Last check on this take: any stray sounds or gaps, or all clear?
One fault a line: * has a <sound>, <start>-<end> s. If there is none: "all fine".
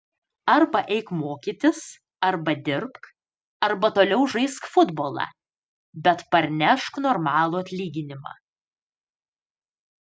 all fine